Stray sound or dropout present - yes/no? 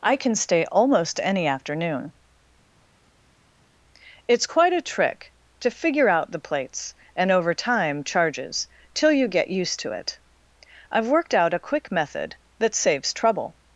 no